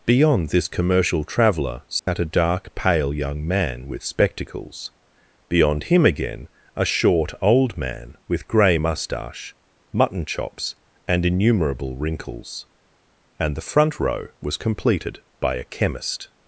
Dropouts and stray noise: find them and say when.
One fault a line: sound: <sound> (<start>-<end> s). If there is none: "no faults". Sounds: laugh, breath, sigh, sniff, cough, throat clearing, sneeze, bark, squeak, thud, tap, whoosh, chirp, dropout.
sound: dropout (2.0-2.1 s)